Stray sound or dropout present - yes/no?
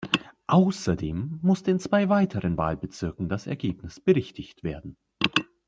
no